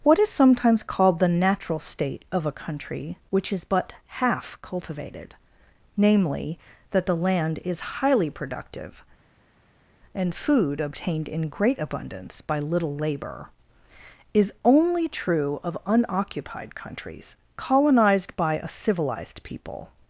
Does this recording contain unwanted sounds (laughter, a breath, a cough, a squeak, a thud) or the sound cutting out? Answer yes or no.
no